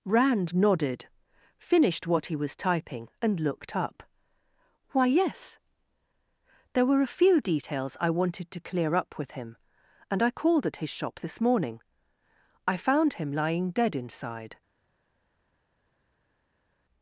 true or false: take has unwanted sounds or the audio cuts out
false